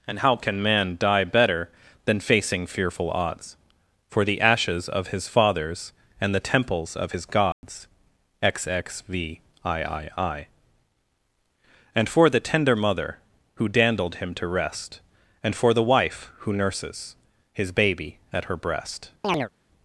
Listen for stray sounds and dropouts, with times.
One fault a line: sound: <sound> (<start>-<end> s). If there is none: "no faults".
sound: dropout (7.5-7.6 s)
sound: chirp (19.2-19.5 s)